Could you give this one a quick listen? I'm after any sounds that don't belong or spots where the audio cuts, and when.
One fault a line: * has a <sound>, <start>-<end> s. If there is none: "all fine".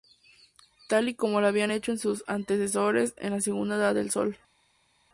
all fine